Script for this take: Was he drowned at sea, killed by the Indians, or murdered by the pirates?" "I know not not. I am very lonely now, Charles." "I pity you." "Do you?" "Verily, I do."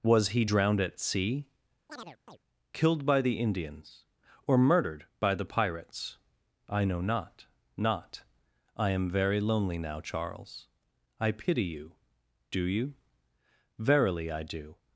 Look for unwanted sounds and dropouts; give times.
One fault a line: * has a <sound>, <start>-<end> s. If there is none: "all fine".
* has a chirp, 1.9-2.4 s